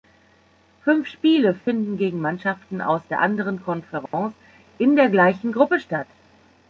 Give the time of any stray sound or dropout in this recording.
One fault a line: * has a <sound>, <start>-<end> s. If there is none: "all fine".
* has a dropout, 1.6-1.7 s
* has a dropout, 4.1-4.1 s